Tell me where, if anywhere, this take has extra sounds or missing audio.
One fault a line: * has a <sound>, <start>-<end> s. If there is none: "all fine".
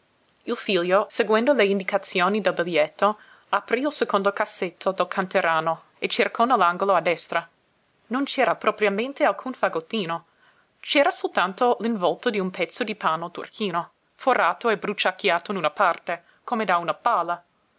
all fine